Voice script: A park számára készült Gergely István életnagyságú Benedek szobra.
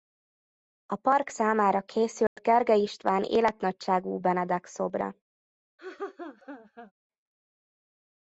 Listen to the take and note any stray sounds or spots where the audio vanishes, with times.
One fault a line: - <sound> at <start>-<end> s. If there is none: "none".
- dropout at 2.3-2.4 s
- laugh at 5.8-6.9 s